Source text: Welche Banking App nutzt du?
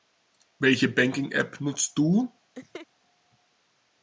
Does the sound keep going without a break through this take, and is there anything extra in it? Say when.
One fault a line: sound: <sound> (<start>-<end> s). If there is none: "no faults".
sound: laugh (2.5-2.9 s)